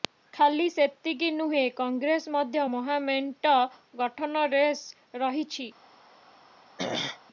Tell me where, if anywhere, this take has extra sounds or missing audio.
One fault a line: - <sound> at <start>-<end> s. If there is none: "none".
- throat clearing at 6.8-7.2 s